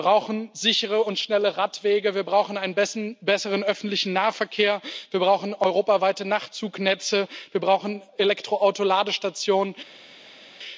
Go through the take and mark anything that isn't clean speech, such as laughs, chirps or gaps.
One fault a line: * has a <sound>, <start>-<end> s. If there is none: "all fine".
all fine